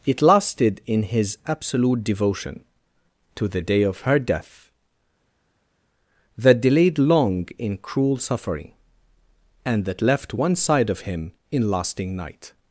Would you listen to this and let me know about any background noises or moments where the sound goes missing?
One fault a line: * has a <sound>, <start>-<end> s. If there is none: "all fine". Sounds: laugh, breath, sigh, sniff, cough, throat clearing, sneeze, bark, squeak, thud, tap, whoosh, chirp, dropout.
all fine